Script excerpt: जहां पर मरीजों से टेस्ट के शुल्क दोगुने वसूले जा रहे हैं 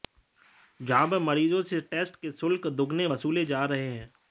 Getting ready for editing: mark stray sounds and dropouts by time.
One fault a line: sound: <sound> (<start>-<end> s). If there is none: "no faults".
no faults